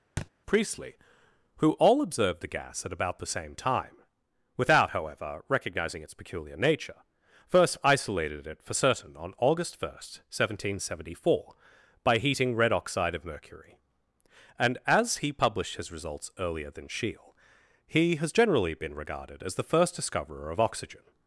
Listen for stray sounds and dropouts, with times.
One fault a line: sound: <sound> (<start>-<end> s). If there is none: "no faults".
sound: thud (0.2-0.3 s)